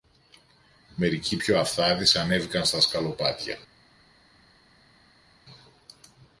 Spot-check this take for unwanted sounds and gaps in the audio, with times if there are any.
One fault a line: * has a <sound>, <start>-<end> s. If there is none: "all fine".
all fine